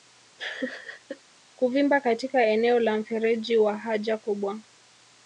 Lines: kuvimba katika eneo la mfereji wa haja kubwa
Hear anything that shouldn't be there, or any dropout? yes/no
yes